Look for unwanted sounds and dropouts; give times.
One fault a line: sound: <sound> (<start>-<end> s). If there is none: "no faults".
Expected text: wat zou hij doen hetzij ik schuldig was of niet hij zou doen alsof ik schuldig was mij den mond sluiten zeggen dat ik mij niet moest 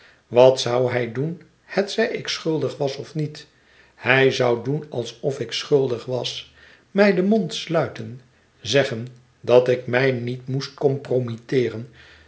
no faults